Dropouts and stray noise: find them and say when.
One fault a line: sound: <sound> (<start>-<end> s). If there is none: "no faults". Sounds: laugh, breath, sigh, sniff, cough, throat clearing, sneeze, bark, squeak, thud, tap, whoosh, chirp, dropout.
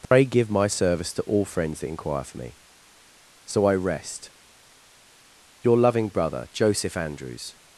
sound: dropout (0.0-0.1 s)